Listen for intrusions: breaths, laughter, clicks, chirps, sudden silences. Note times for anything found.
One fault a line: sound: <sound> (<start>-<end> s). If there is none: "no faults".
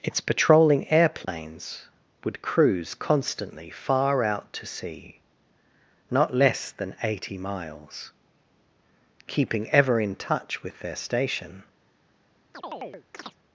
sound: dropout (1.2-1.3 s)
sound: chirp (12.5-13.4 s)